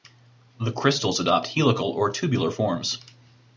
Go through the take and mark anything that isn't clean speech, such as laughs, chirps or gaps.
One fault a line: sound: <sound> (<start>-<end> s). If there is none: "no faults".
no faults